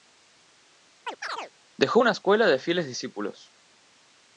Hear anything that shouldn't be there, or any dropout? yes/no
yes